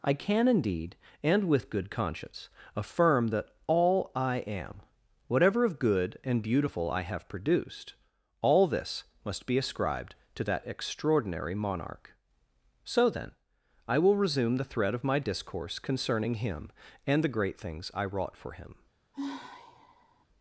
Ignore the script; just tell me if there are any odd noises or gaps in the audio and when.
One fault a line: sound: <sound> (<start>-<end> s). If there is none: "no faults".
sound: sigh (19.1-20.3 s)